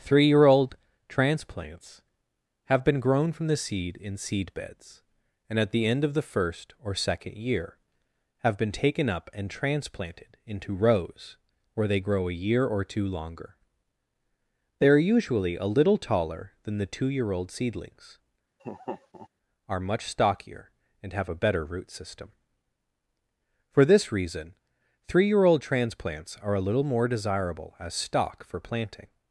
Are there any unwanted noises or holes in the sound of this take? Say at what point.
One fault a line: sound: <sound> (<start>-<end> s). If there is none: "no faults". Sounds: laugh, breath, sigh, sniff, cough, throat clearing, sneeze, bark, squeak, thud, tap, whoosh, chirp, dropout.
sound: laugh (18.6-19.3 s)